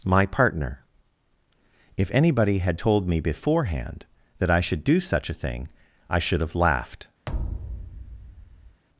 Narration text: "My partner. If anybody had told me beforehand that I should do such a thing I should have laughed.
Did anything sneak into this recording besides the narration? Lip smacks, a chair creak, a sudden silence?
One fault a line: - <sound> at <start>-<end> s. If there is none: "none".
- thud at 7.3-8.8 s